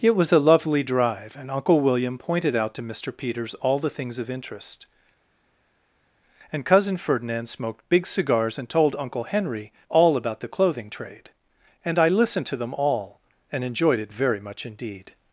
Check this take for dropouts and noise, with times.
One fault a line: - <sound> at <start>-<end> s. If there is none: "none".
none